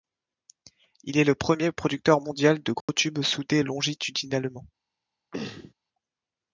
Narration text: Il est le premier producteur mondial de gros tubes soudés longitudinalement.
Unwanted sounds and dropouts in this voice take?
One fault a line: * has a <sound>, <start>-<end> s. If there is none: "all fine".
* has a dropout, 2.8-2.9 s
* has a throat clearing, 5.3-5.7 s